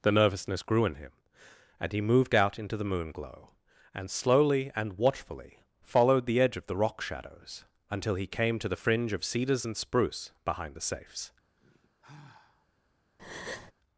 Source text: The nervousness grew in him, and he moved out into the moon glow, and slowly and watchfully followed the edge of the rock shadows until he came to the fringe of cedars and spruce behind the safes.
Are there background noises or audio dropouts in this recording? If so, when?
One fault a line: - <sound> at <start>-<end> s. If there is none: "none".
- sigh at 11.6-12.7 s
- breath at 13.2-13.7 s